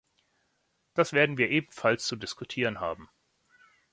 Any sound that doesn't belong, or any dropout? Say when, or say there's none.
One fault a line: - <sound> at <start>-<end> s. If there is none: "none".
none